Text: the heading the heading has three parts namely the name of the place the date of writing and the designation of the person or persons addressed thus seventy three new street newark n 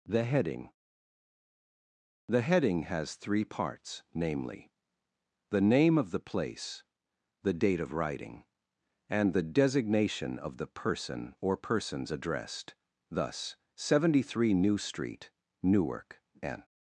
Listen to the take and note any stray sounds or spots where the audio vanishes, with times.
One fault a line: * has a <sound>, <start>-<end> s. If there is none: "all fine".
all fine